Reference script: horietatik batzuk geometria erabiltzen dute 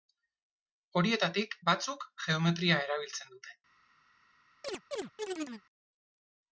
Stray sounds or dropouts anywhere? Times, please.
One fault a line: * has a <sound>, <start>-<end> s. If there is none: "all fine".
* has a chirp, 4.6-5.6 s